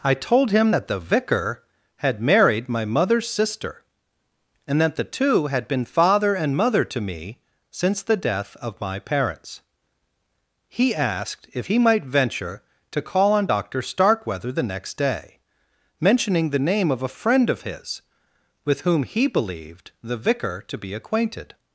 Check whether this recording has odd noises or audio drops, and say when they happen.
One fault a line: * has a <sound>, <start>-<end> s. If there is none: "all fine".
all fine